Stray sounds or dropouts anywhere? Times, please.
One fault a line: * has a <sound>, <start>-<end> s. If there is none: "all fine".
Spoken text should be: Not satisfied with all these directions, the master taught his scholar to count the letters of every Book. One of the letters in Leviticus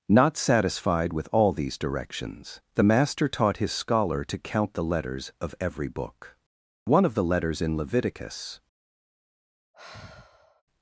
* has a sigh, 9.7-10.6 s